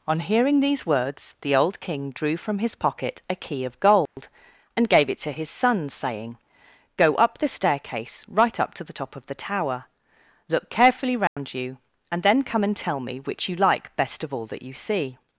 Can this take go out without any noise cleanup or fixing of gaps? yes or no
no